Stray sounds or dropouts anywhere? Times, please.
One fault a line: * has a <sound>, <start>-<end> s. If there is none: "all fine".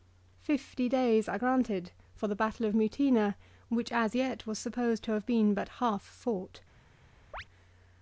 * has a chirp, 7.3-7.4 s